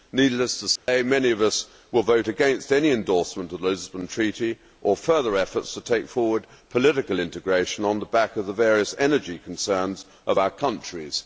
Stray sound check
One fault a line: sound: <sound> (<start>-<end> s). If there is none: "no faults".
sound: dropout (0.8-0.9 s)